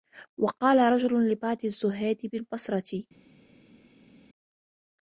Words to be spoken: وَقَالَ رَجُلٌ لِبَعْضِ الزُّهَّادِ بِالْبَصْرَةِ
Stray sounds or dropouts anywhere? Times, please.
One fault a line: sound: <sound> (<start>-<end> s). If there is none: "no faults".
no faults